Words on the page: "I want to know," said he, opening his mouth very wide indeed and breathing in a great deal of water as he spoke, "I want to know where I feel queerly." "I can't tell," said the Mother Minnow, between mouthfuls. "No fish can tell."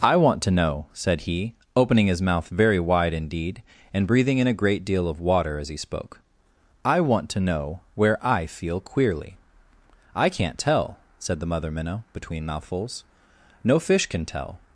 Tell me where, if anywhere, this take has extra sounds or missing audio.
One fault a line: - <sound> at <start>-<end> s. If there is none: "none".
none